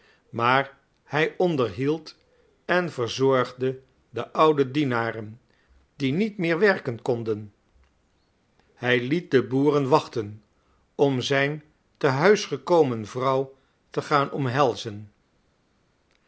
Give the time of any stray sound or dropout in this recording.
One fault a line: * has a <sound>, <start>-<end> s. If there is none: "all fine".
all fine